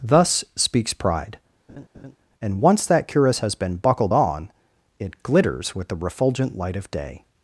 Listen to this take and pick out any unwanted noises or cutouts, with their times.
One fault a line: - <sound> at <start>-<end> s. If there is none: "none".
- laugh at 1.7-2.2 s